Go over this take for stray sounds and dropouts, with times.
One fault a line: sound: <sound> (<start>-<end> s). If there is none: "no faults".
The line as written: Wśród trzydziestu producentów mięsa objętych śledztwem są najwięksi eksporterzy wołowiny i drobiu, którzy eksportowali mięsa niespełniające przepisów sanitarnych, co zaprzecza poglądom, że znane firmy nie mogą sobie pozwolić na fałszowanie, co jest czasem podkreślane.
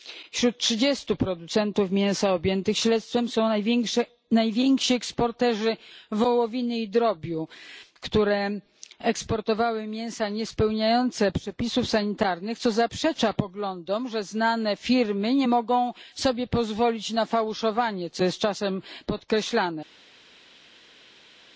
no faults